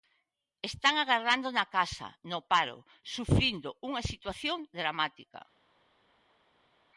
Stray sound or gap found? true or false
false